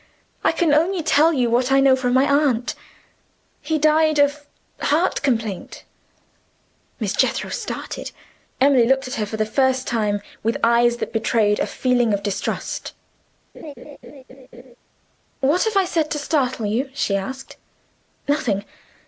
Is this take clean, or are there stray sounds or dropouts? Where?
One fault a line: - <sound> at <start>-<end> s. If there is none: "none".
- laugh at 13.5-14.8 s